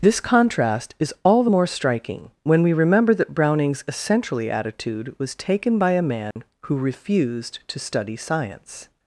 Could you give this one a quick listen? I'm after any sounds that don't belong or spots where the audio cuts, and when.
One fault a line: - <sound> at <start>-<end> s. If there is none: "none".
- dropout at 6.3-6.4 s